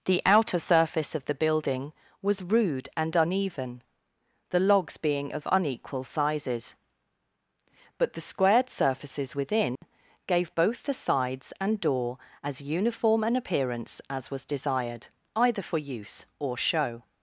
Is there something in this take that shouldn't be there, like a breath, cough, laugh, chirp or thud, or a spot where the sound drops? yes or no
yes